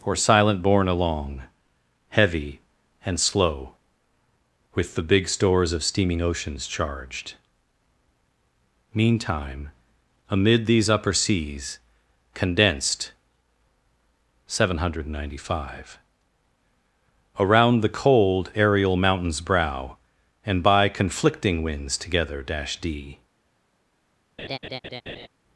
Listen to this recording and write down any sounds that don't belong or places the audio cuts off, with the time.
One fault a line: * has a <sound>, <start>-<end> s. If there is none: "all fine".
* has a laugh, 24.4-25.3 s